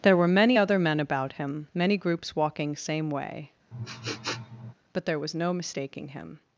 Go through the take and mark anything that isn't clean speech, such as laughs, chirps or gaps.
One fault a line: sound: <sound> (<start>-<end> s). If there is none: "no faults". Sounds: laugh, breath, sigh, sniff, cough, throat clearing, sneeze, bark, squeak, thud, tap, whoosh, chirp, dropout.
sound: sniff (3.7-4.7 s)